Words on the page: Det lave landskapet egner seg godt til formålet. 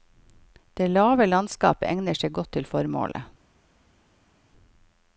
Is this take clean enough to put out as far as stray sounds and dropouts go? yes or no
yes